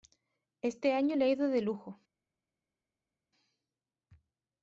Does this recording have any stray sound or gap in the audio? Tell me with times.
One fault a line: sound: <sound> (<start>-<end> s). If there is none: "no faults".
no faults